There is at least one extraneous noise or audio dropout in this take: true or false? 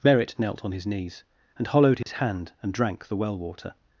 true